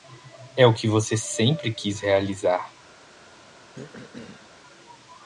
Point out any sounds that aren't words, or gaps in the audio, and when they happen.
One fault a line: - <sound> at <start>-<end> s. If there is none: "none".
- throat clearing at 3.7-4.5 s